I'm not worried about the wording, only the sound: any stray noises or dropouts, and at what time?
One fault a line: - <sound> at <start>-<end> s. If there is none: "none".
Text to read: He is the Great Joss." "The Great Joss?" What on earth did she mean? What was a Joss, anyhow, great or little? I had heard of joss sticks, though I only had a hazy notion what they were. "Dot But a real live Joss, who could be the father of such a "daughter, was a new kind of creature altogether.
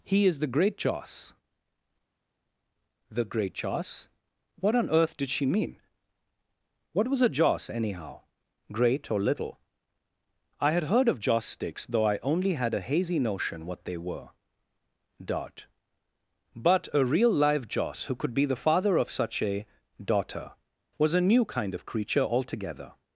none